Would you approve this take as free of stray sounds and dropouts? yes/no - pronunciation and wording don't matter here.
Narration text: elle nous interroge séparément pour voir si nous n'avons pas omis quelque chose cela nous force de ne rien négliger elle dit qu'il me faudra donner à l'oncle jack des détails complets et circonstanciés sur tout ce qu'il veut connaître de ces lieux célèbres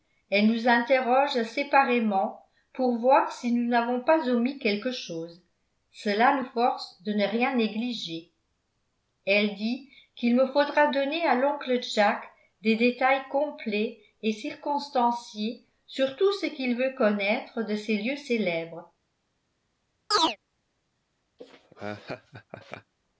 no